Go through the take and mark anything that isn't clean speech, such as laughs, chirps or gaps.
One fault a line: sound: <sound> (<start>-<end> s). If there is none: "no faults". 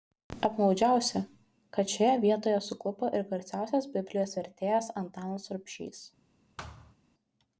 sound: thud (6.6-6.9 s)